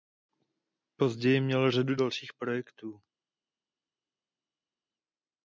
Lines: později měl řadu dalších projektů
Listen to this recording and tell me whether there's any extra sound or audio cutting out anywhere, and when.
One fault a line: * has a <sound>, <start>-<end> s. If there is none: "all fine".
all fine